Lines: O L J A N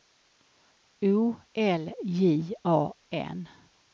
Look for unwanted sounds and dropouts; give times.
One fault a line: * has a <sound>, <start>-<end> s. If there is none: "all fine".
all fine